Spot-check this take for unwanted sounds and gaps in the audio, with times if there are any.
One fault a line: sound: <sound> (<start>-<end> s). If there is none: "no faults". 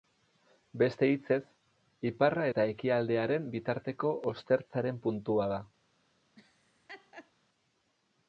sound: laugh (6.4-7.3 s)